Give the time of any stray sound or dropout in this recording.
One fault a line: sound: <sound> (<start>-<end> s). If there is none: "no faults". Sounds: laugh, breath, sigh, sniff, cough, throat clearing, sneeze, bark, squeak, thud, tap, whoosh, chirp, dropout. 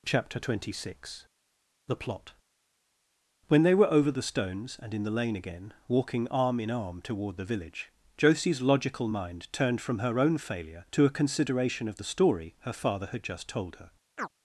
sound: chirp (14.2-14.3 s)